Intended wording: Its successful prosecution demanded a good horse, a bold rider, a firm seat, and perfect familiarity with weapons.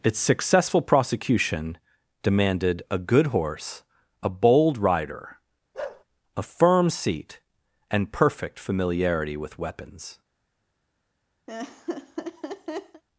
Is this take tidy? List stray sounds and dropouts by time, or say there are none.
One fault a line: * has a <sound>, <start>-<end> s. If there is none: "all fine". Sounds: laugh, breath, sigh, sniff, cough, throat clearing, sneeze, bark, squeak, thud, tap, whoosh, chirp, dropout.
* has a bark, 5.7-6.0 s
* has a laugh, 11.5-13.0 s